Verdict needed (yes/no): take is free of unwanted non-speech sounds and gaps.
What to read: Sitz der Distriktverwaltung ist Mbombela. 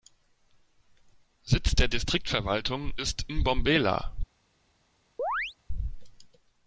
no